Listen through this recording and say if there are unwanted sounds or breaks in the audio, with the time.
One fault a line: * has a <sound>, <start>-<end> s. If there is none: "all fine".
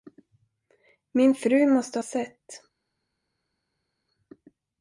all fine